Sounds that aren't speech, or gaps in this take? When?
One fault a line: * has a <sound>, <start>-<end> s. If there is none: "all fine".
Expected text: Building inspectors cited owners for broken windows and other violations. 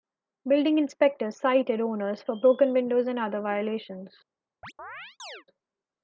* has a chirp, 4.6-5.4 s